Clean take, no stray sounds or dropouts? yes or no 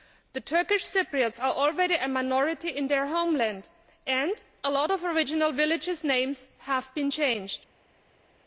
yes